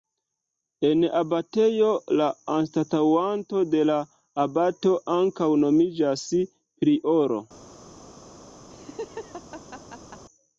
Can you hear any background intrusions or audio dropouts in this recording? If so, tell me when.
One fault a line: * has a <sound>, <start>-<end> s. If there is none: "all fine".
* has a laugh, 8.7-10.2 s